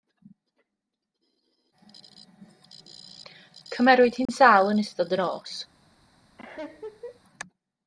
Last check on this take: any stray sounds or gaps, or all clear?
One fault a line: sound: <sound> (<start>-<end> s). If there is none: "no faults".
sound: dropout (4.3-4.3 s)
sound: laugh (6.4-7.2 s)